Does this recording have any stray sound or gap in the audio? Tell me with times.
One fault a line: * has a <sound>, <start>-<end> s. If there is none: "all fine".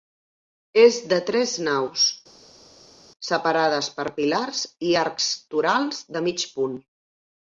all fine